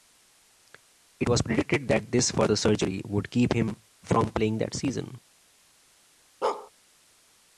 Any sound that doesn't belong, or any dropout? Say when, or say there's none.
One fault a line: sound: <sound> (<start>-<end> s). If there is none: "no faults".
sound: bark (6.4-6.7 s)